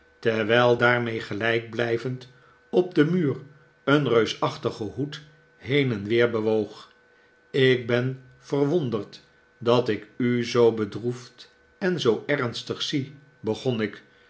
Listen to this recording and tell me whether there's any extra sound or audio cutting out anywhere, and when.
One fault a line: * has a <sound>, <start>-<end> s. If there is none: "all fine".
all fine